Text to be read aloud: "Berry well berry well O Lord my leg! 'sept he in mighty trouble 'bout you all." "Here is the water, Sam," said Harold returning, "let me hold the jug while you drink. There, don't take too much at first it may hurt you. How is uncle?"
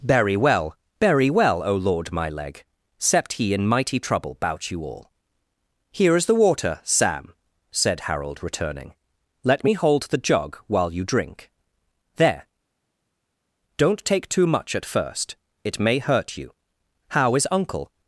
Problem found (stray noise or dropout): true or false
false